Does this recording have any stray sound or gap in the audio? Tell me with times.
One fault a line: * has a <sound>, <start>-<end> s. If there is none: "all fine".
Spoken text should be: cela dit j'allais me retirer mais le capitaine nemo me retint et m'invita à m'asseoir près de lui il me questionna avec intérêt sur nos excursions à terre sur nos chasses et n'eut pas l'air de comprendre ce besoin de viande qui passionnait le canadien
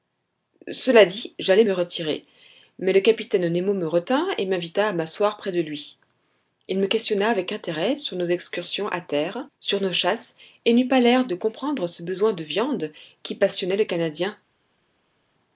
all fine